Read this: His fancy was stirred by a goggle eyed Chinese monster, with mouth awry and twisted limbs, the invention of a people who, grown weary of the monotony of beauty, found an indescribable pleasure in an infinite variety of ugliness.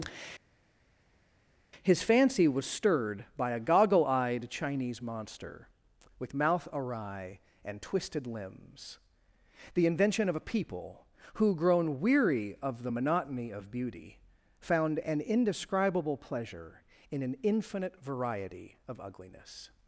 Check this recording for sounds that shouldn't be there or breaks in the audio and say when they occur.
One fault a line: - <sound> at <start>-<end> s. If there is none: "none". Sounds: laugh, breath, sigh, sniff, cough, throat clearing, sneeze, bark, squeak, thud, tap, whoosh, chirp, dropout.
none